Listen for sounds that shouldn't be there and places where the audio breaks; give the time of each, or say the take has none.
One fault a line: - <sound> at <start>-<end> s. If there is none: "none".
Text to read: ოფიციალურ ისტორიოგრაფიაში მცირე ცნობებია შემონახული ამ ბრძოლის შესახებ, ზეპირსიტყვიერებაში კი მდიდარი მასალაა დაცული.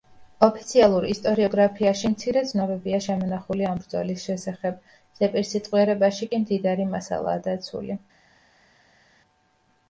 none